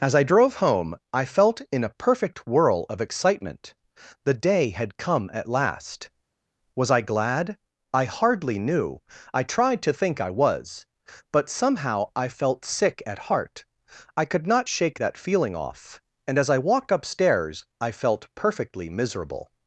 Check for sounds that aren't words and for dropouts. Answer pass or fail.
pass